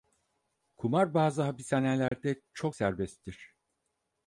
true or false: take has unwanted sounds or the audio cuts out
true